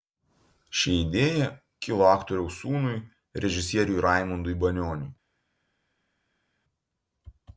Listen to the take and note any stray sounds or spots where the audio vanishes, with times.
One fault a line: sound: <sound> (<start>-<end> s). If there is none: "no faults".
no faults